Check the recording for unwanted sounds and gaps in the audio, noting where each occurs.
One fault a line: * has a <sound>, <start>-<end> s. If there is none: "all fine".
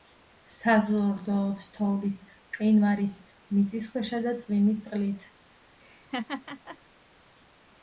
* has a laugh, 5.8-6.8 s